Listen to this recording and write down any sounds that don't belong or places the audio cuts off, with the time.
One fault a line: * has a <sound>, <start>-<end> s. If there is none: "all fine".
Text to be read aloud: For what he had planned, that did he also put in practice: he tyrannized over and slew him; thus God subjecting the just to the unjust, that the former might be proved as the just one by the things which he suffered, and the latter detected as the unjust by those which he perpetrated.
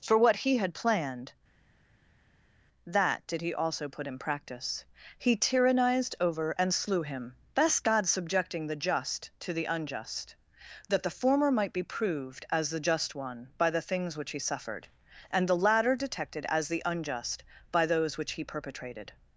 all fine